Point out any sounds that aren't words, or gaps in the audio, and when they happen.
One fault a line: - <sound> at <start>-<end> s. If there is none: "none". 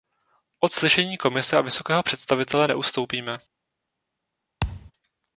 - thud at 4.6-4.9 s